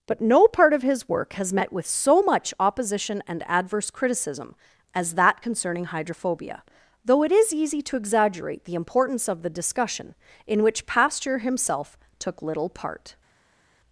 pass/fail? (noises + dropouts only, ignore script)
pass